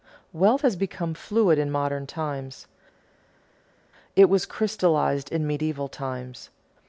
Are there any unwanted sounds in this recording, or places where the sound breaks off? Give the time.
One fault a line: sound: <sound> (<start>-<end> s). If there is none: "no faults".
no faults